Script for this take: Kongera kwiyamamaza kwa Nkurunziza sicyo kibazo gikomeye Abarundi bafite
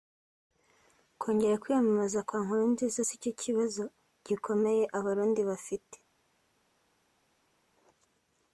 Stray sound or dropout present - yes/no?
no